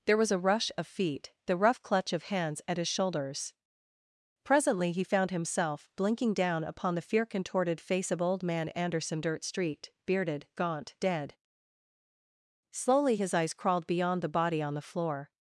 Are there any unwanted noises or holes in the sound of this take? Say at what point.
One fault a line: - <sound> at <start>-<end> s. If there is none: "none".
none